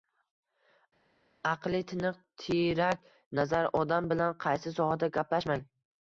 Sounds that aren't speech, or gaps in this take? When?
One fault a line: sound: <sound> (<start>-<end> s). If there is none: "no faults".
no faults